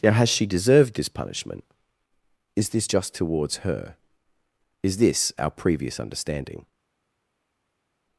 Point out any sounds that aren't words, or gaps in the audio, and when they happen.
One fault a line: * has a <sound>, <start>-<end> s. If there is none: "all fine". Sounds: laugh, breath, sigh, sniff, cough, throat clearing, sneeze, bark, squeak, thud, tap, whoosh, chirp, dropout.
all fine